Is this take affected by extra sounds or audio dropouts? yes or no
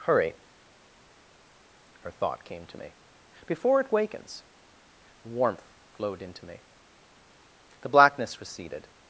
no